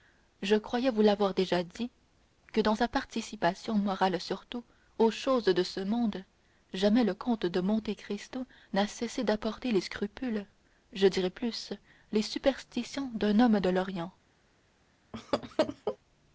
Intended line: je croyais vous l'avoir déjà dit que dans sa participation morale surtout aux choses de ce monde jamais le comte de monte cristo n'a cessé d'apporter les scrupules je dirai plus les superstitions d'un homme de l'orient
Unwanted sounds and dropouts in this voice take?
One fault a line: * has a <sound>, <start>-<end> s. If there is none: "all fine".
* has a laugh, 15.1-16.0 s